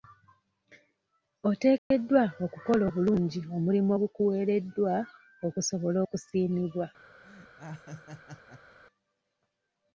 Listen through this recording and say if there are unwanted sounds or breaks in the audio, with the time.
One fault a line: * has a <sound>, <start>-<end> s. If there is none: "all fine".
* has a dropout, 1.8-1.9 s
* has a laugh, 7.2-8.8 s